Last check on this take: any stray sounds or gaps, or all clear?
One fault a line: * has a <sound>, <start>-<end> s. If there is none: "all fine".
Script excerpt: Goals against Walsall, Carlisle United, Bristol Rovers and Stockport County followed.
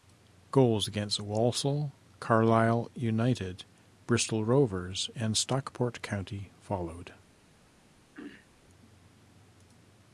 * has a throat clearing, 8.1-8.5 s